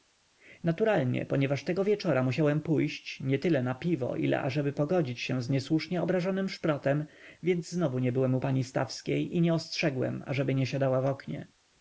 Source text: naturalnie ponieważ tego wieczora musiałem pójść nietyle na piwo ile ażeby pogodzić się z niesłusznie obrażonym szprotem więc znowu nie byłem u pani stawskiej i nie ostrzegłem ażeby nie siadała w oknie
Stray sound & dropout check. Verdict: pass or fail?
pass